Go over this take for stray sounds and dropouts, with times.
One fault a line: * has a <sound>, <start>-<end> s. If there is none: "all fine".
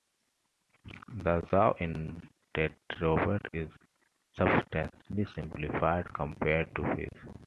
all fine